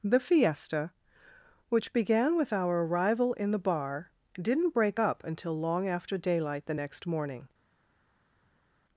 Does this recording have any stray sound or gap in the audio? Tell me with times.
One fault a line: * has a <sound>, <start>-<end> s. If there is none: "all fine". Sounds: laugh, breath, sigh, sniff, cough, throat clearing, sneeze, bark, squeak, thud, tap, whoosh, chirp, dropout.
all fine